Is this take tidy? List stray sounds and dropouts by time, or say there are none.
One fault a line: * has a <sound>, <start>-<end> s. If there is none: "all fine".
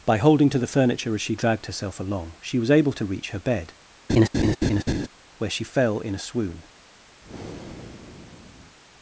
* has a laugh, 4.1-5.1 s
* has a breath, 7.2-8.8 s